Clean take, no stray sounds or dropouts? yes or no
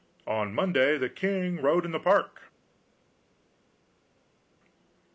yes